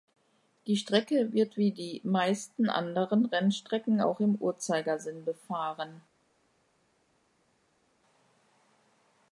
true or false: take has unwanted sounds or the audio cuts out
false